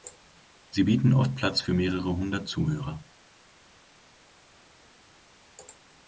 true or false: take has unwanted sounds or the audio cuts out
false